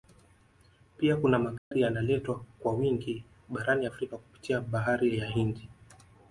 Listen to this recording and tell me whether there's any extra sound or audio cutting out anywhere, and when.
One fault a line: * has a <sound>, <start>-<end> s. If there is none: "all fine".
* has a dropout, 1.6-1.7 s